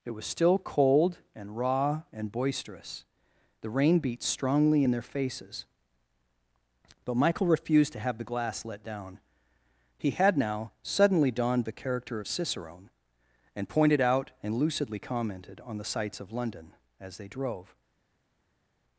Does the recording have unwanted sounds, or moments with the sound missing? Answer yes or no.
no